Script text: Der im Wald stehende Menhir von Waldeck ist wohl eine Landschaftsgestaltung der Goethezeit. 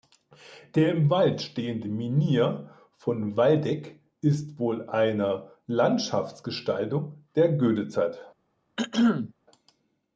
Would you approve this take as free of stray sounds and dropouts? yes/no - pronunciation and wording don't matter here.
no